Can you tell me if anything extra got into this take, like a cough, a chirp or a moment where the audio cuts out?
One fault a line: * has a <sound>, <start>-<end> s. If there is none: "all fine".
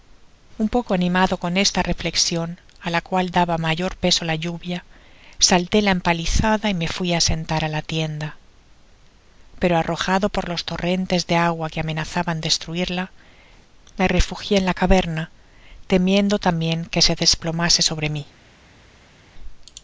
all fine